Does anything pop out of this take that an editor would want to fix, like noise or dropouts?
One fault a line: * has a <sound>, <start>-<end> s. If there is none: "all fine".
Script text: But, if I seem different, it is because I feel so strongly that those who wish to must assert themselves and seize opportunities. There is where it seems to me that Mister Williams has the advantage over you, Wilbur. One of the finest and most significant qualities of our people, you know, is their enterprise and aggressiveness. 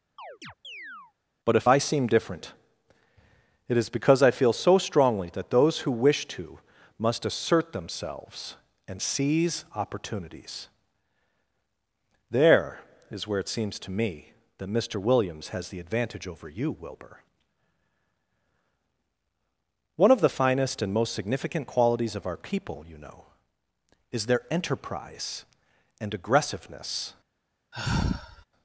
* has a chirp, 0.2-1.1 s
* has a sigh, 27.7-28.5 s